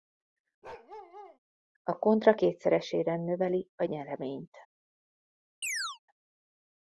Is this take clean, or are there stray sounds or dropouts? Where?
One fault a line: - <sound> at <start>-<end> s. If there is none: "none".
- bark at 0.6-1.4 s
- chirp at 5.6-6.0 s